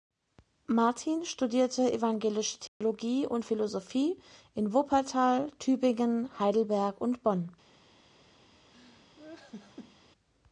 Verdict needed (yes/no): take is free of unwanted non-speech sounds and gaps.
no